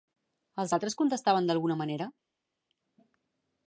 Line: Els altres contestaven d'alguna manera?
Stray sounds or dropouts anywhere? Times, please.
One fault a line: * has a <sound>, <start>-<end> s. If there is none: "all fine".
all fine